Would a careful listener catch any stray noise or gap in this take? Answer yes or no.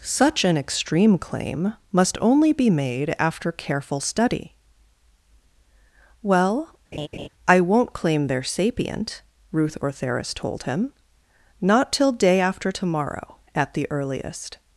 yes